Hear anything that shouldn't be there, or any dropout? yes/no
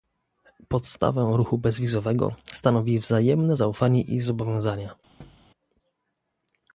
yes